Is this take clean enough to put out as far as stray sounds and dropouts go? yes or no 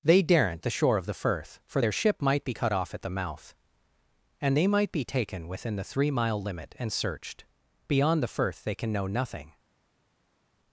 yes